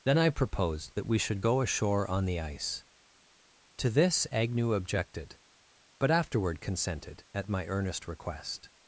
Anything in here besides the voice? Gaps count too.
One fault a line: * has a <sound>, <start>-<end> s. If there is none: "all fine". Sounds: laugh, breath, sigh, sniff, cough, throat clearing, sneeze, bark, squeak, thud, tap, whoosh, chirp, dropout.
all fine